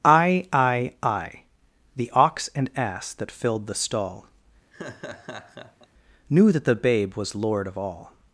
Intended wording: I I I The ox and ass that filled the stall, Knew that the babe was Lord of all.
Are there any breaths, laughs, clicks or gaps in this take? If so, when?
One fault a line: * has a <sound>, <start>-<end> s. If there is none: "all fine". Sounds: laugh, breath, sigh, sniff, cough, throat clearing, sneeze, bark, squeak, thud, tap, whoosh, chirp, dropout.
* has a laugh, 4.7-5.9 s